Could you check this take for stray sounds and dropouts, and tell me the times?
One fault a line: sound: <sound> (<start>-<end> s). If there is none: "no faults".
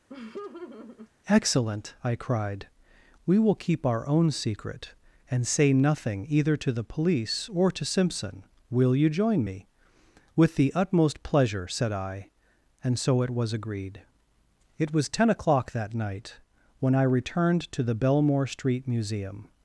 sound: laugh (0.1-1.1 s)